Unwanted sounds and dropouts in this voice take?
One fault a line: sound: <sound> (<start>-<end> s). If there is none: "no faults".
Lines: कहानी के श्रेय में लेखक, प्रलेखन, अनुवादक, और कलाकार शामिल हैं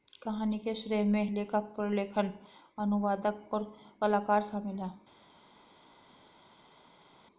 no faults